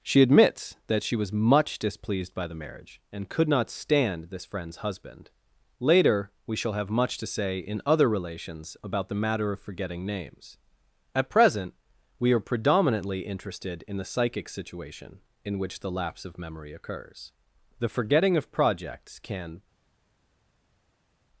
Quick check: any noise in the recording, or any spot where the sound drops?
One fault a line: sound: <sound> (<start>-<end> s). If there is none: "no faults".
no faults